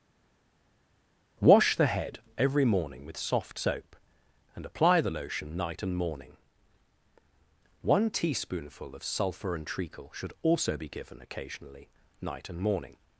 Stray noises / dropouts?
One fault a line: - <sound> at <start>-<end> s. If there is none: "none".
none